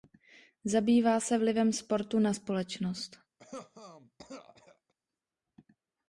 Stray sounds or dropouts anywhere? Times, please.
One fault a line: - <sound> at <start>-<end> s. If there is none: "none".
- cough at 3.4-4.9 s